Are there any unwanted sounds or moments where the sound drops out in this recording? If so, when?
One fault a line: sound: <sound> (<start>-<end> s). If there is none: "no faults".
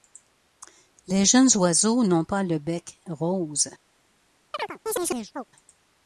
sound: chirp (4.5-5.4 s)